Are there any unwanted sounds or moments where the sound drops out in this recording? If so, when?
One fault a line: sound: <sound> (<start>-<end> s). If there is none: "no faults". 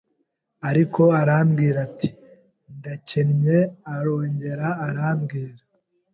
no faults